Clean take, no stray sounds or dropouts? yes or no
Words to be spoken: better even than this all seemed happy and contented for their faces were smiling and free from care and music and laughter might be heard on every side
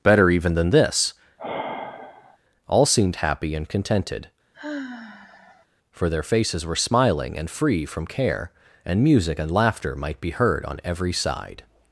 no